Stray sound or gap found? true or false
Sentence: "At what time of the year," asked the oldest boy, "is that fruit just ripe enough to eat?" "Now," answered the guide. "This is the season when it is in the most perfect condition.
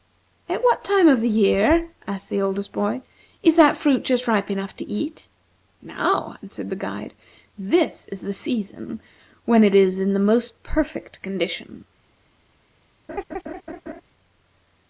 true